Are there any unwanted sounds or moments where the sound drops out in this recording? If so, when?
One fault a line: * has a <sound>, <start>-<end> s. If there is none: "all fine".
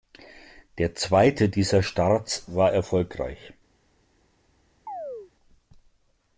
* has a chirp, 4.9-5.3 s